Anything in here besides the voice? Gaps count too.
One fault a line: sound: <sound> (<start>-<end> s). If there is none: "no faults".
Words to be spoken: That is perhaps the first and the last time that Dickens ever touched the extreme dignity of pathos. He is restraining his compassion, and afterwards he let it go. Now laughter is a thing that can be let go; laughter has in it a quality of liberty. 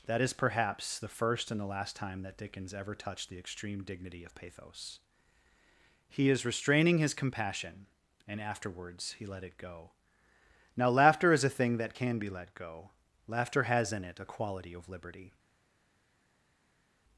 no faults